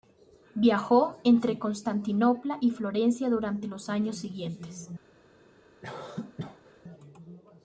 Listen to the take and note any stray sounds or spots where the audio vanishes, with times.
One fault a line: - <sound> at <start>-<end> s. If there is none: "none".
- cough at 5.8-6.8 s